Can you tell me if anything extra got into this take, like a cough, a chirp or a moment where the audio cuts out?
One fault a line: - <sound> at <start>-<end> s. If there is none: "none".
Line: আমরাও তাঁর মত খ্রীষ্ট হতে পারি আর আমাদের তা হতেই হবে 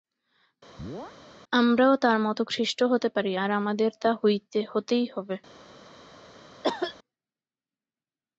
- chirp at 0.8-1.2 s
- cough at 6.6-7.0 s